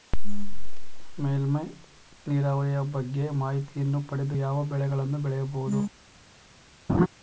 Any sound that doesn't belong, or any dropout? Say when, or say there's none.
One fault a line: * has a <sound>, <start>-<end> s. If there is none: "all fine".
* has a laugh, 6.9-7.1 s